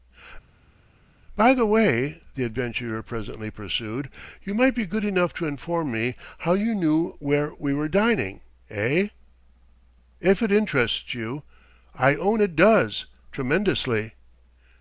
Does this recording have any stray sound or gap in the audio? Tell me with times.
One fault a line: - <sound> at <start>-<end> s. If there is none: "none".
none